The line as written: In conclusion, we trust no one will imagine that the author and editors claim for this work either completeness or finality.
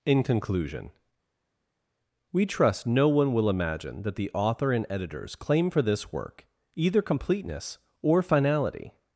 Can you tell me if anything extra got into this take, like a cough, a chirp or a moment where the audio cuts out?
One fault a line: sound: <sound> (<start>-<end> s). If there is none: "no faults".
no faults